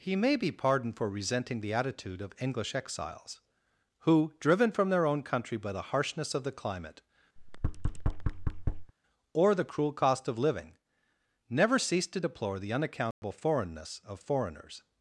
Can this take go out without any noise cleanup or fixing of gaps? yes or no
no